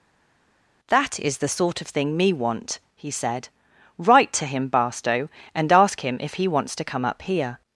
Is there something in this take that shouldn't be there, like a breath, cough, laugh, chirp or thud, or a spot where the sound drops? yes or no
no